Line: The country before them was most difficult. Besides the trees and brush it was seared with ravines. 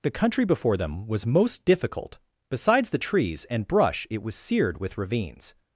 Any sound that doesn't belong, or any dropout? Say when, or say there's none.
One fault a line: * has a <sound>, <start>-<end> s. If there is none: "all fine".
all fine